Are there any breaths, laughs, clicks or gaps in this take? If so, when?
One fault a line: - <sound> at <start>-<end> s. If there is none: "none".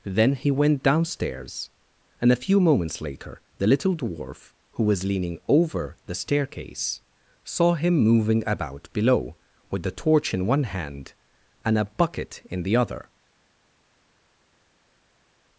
none